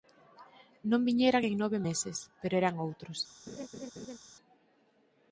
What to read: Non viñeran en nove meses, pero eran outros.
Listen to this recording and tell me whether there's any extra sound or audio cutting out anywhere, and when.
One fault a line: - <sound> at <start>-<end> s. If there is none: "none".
- laugh at 3.5-4.2 s